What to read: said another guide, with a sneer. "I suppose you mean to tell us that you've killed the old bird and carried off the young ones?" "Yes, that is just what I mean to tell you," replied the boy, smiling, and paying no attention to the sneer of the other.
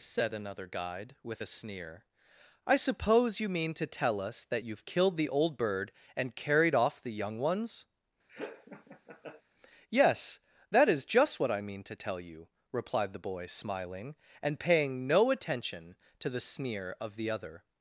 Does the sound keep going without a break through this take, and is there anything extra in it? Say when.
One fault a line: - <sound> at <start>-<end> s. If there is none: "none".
- laugh at 8.3-9.4 s